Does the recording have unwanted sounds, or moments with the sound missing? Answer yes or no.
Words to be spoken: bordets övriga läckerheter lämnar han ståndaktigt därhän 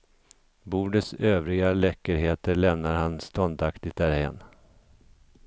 no